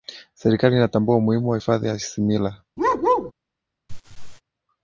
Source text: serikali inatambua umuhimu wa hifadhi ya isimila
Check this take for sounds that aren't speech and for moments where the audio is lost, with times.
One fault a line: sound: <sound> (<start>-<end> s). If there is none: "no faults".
sound: bark (2.8-3.3 s)
sound: laugh (3.9-4.4 s)